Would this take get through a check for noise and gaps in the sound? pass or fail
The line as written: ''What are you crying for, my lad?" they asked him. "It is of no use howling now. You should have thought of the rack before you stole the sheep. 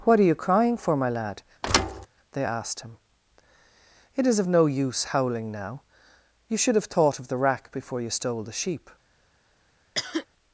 fail